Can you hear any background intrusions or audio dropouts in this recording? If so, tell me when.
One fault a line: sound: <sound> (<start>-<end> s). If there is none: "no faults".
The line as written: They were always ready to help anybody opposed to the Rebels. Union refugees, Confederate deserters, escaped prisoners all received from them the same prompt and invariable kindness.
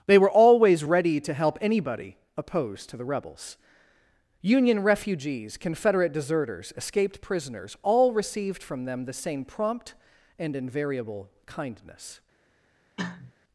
sound: cough (13.0-13.3 s)